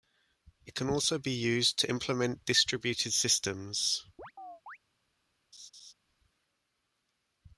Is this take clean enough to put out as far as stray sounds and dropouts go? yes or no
no